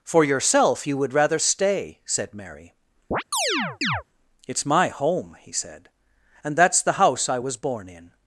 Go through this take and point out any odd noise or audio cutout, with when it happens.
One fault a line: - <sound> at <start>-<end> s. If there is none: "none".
- chirp at 3.1-4.0 s